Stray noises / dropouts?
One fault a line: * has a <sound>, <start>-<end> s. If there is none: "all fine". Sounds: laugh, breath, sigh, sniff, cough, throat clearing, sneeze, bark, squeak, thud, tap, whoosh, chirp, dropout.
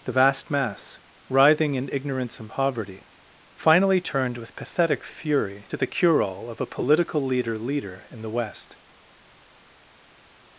all fine